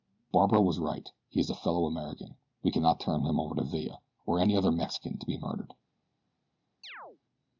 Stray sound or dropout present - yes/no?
yes